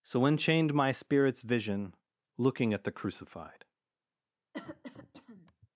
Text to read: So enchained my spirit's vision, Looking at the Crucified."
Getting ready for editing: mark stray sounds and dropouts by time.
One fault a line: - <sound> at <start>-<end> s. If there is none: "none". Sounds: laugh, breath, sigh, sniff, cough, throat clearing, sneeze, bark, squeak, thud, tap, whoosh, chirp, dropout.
- cough at 4.5-5.7 s